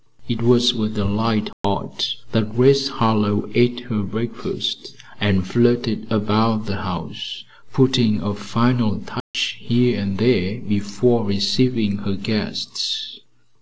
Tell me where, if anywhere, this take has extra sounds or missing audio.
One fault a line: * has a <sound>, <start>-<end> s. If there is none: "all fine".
* has a dropout, 1.5-1.6 s
* has a dropout, 9.2-9.3 s